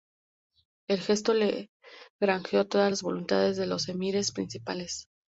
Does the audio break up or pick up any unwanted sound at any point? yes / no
no